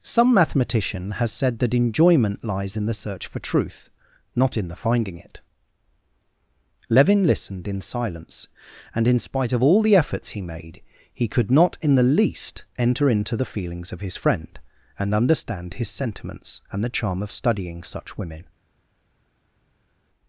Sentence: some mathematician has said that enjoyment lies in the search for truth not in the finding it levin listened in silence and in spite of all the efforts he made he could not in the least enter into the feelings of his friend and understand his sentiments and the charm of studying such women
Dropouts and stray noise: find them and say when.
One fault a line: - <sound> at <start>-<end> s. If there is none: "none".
none